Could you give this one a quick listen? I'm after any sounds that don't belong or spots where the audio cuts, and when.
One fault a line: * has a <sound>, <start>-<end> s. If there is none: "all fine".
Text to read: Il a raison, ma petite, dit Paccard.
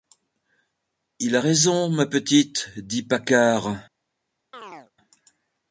* has a chirp, 4.5-4.9 s